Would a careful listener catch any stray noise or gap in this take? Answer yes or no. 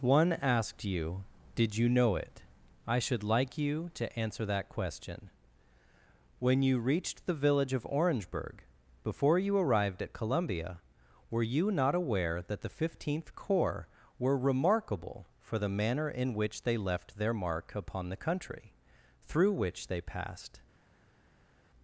no